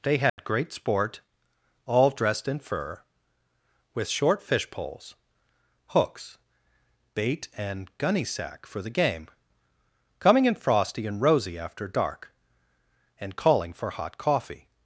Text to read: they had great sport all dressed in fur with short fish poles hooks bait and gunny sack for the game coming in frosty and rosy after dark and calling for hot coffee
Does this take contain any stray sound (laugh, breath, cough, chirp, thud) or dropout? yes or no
yes